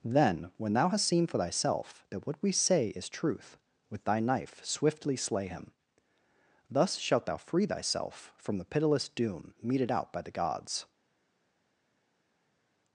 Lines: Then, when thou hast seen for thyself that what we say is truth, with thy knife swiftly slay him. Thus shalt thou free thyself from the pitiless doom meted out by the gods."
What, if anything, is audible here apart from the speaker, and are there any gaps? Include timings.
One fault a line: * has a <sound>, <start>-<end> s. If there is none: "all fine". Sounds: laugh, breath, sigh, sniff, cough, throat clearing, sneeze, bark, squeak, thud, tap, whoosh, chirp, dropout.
all fine